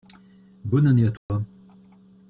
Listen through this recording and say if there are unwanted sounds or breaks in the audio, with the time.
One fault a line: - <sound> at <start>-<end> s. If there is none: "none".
- dropout at 1.2-1.3 s